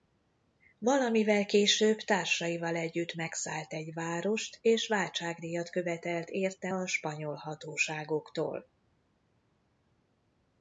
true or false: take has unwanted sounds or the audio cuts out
false